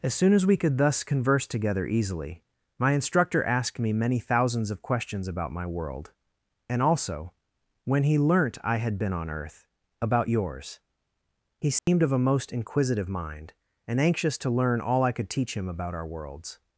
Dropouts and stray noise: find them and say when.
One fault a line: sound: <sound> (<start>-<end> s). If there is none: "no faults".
sound: dropout (11.8-11.9 s)